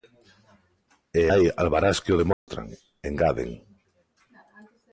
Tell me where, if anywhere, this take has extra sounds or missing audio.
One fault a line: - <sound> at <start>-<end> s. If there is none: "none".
- dropout at 2.3-2.5 s